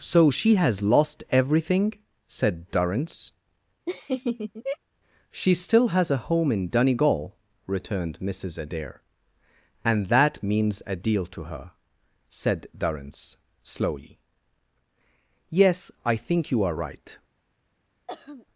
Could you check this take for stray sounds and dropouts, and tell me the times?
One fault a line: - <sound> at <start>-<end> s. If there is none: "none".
- laugh at 3.9-4.8 s
- throat clearing at 18.1-18.5 s